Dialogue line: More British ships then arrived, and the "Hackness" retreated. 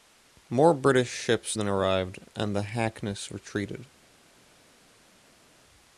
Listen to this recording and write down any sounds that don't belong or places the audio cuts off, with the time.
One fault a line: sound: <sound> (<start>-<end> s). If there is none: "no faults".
no faults